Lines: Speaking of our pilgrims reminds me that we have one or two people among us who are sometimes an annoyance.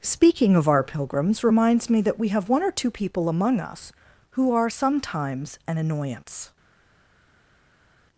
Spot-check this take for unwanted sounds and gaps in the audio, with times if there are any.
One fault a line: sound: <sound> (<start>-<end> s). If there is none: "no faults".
no faults